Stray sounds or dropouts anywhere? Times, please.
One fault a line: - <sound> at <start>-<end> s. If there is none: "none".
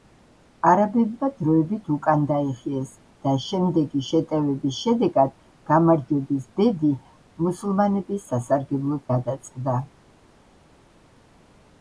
none